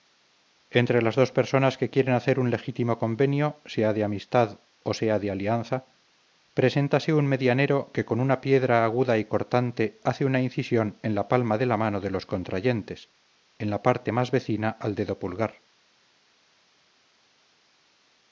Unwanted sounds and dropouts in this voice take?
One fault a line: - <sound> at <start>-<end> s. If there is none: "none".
none